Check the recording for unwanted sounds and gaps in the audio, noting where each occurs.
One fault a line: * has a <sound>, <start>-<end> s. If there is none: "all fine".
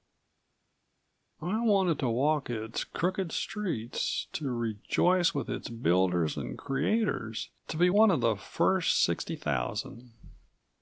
all fine